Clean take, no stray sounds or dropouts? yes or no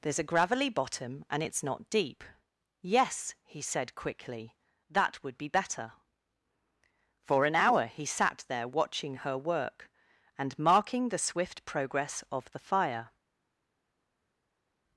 yes